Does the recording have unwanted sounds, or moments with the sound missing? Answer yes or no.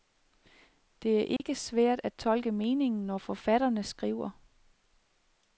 yes